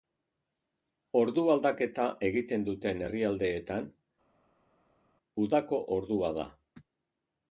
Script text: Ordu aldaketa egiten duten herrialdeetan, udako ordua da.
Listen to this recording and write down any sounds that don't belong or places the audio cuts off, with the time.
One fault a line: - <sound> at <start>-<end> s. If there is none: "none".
none